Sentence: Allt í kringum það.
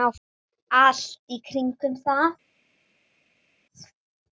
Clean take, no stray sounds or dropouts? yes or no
yes